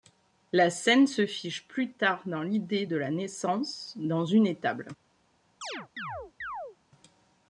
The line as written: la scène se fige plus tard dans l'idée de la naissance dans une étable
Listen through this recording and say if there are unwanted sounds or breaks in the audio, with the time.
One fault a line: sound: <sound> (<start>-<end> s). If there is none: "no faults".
sound: chirp (5.6-6.8 s)